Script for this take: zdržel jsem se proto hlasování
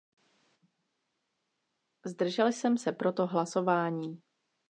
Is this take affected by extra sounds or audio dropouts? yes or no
no